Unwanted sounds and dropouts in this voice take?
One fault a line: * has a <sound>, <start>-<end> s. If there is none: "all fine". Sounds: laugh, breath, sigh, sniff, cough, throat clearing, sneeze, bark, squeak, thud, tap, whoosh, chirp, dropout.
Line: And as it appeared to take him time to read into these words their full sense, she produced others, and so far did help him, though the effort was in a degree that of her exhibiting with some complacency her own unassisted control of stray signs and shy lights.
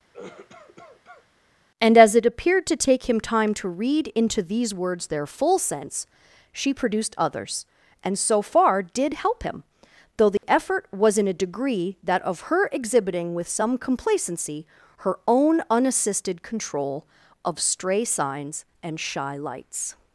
* has a cough, 0.1-1.3 s
* has a dropout, 10.4-10.4 s